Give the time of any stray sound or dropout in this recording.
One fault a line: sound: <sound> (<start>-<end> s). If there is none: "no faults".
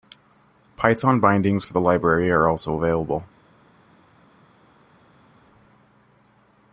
no faults